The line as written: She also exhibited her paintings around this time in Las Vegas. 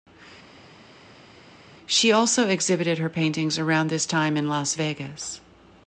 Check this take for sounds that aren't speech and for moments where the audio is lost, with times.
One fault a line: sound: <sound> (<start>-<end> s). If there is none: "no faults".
no faults